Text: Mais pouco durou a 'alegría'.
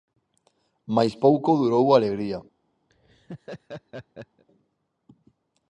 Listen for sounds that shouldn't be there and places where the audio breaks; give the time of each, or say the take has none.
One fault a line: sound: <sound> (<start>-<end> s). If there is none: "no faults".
sound: laugh (2.9-4.4 s)